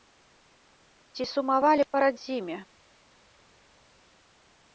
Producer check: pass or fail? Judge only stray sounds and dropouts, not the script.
pass